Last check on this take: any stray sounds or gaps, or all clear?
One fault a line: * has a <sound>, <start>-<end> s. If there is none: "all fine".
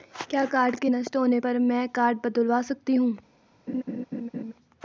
* has a laugh, 3.7-4.5 s